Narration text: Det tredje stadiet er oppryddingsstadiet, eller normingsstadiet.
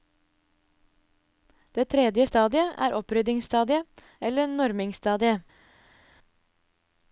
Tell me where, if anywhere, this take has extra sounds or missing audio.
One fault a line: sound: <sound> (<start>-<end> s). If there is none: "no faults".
no faults